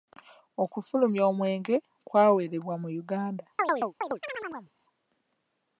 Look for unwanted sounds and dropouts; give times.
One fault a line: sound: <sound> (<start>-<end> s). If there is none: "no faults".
sound: chirp (3.6-4.7 s)